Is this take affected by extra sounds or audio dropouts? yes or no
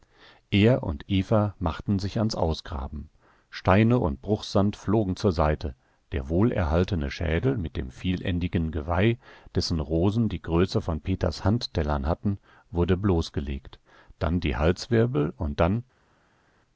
no